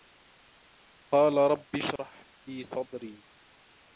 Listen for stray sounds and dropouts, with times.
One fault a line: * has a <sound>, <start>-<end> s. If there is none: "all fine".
* has a dropout, 2.0-2.0 s